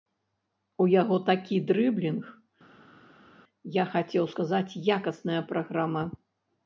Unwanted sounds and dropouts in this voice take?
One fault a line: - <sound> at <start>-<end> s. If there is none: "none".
none